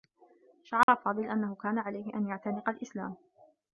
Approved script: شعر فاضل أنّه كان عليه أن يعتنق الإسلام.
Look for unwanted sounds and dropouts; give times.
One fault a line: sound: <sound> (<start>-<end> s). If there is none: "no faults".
sound: dropout (0.8-0.9 s)